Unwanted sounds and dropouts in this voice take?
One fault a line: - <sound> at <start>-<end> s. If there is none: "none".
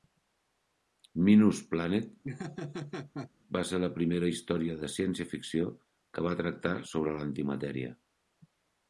- laugh at 2.2-3.3 s